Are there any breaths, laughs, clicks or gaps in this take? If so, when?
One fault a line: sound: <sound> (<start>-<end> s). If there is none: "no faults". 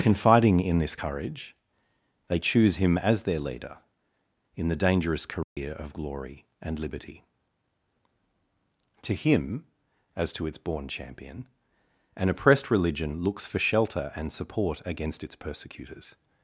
sound: dropout (5.4-5.6 s)